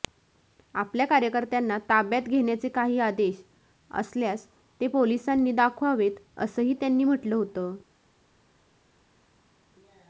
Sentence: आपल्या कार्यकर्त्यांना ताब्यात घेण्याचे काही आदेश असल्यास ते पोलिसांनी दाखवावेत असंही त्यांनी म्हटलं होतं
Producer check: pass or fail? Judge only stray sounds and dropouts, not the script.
pass